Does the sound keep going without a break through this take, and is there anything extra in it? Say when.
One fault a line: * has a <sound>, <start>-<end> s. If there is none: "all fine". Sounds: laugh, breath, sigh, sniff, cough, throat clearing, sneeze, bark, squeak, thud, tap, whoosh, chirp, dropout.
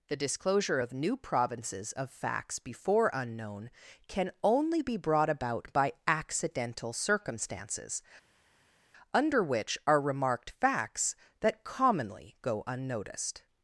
all fine